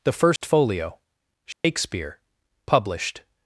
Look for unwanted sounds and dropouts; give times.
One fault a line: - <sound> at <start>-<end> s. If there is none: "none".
- dropout at 0.4-0.4 s
- dropout at 1.5-1.6 s